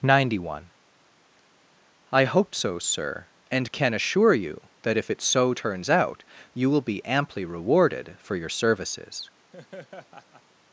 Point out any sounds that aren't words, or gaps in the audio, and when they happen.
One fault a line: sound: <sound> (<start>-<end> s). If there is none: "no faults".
sound: laugh (9.5-10.4 s)